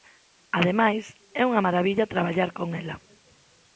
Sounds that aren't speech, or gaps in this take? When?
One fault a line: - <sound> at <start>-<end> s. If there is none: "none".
none